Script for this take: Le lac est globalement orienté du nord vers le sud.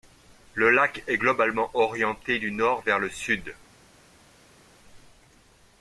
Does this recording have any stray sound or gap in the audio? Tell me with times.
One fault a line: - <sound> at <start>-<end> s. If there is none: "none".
none